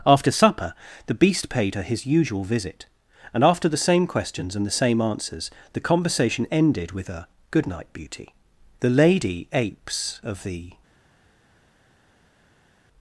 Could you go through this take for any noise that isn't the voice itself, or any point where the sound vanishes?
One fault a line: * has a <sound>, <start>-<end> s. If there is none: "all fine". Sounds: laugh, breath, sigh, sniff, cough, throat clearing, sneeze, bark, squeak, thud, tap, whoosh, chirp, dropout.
all fine